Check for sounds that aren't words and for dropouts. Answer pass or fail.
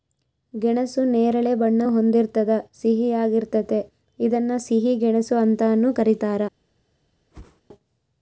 fail